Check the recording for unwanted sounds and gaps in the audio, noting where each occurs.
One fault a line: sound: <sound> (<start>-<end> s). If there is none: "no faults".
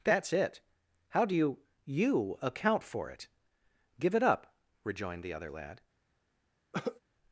sound: cough (6.7-7.0 s)